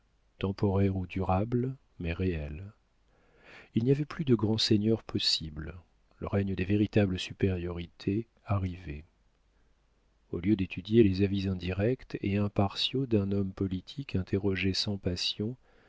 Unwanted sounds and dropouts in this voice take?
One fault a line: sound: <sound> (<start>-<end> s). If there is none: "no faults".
no faults